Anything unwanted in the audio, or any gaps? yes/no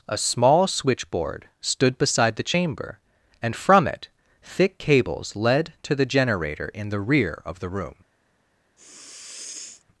yes